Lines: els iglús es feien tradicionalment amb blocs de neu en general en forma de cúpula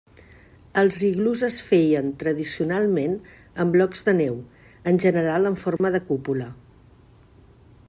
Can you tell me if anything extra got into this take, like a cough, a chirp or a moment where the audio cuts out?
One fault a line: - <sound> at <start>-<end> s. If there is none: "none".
- dropout at 5.8-5.8 s